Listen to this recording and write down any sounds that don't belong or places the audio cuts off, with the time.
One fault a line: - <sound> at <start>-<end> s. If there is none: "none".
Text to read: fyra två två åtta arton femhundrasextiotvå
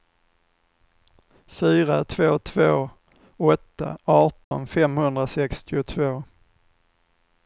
- dropout at 4.4-4.5 s